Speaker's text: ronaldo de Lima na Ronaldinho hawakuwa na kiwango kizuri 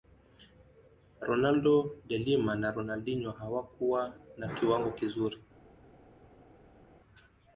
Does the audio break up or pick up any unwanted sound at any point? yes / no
no